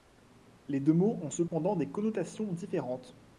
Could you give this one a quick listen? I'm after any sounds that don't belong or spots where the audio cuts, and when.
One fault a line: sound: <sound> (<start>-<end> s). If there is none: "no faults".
sound: dropout (1.5-1.5 s)